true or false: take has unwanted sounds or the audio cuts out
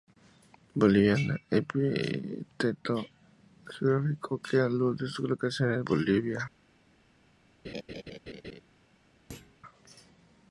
true